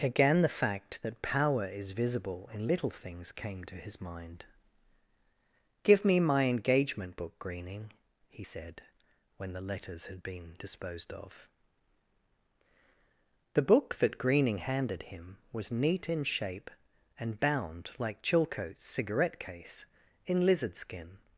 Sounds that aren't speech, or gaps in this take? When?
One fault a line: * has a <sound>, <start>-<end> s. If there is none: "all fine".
all fine